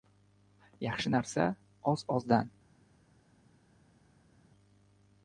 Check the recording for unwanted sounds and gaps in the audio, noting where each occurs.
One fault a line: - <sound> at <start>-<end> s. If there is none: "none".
none